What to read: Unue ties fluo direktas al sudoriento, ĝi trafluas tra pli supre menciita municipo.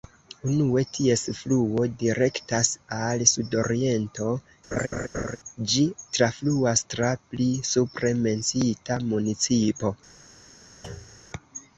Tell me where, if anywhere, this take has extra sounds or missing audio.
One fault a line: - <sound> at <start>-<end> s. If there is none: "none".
- laugh at 4.7-5.4 s
- thud at 10.8-11.3 s